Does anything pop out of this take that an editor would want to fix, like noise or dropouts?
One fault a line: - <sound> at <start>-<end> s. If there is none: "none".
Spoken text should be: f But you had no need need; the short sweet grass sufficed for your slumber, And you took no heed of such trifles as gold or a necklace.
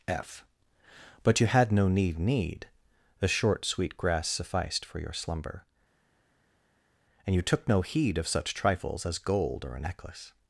none